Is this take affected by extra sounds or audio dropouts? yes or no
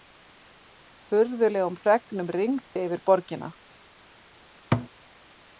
yes